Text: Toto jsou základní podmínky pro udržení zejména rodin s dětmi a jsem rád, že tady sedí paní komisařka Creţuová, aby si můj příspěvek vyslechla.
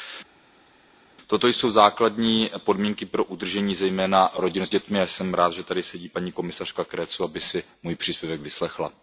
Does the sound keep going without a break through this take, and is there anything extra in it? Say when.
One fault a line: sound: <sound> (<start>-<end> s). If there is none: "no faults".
no faults